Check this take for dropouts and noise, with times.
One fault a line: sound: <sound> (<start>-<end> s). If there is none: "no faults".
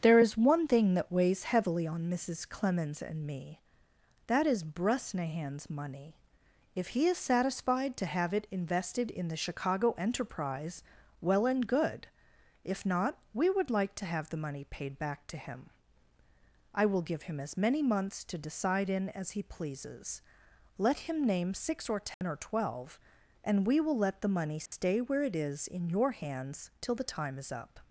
sound: dropout (22.1-22.2 s)
sound: dropout (24.7-24.7 s)